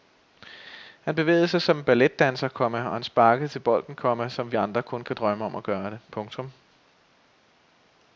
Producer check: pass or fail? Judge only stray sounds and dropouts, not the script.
pass